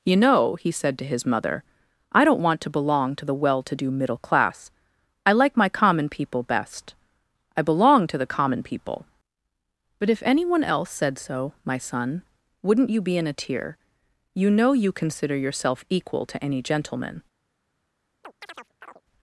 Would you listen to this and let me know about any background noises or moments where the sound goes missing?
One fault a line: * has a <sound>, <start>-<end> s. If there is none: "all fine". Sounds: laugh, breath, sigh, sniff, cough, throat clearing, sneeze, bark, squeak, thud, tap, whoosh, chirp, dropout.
* has a chirp, 18.2-19.0 s